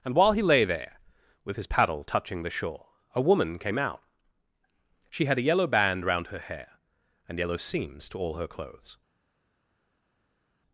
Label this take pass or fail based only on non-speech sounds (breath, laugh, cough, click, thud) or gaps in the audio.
pass